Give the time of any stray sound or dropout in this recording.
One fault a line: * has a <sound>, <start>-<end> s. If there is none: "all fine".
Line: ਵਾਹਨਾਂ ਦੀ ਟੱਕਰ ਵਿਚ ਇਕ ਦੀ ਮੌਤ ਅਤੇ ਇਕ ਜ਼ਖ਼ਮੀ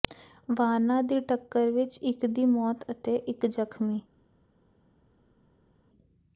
all fine